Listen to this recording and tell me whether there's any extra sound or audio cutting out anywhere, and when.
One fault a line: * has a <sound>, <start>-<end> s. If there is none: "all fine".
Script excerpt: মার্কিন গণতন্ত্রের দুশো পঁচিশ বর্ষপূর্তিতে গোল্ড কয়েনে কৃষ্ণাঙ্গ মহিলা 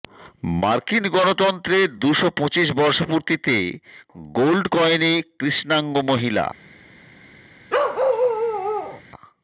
* has a bark, 7.7-9.0 s